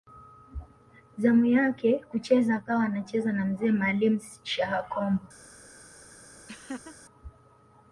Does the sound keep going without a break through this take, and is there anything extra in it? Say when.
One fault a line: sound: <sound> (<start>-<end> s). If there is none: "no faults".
sound: laugh (6.5-7.0 s)